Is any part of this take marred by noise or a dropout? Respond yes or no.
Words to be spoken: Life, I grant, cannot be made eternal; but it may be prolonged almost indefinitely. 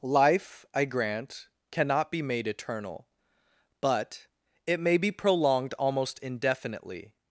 no